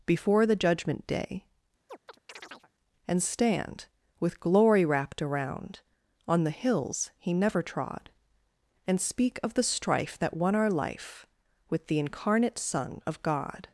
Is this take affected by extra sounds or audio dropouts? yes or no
yes